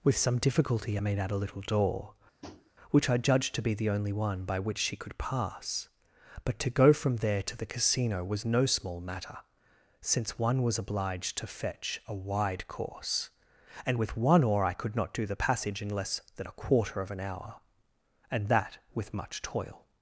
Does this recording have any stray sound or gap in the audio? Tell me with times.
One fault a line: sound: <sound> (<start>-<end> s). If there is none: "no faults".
sound: tap (2.4-2.7 s)